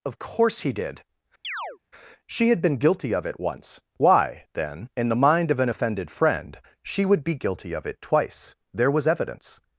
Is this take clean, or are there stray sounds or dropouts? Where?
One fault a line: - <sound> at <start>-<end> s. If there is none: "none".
- chirp at 1.4-1.8 s